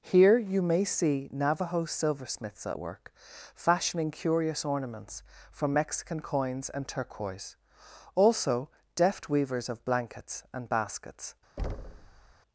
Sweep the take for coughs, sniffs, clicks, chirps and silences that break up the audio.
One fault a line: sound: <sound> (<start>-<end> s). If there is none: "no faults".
sound: thud (11.6-12.3 s)